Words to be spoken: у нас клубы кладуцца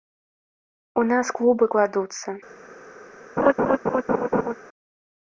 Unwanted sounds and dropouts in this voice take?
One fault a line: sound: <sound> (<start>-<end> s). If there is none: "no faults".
sound: laugh (3.4-4.5 s)